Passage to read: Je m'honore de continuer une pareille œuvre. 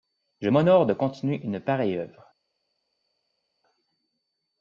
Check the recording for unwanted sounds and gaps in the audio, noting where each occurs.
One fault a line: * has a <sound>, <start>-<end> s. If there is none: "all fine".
all fine